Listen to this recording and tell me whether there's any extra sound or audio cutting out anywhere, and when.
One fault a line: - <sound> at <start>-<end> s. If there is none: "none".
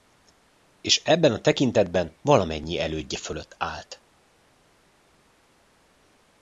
none